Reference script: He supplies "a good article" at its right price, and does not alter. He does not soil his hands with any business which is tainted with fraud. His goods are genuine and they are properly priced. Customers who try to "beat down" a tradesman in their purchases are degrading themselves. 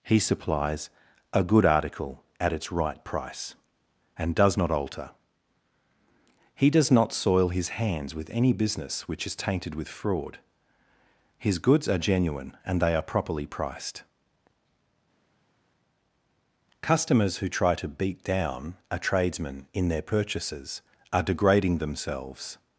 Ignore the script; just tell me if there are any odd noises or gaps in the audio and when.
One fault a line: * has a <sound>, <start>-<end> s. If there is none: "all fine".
all fine